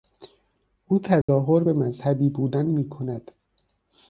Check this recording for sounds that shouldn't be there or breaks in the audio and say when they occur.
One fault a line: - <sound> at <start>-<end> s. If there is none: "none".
- dropout at 1.2-1.3 s